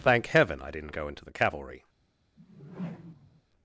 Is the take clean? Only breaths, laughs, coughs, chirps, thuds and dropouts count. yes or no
no